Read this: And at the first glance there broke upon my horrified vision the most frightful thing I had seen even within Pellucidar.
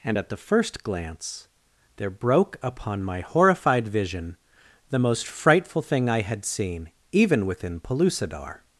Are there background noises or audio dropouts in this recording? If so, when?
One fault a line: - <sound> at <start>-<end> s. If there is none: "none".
none